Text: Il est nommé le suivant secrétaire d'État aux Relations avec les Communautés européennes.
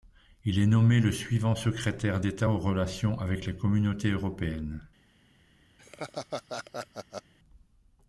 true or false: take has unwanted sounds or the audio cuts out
true